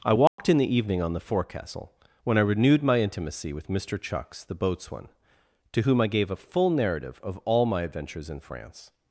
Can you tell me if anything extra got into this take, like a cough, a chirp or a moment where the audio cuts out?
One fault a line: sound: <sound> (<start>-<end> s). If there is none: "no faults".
sound: dropout (0.3-0.4 s)